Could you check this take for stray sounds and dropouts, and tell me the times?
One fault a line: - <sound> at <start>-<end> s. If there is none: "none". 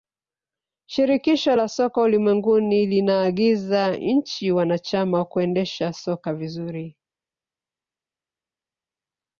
none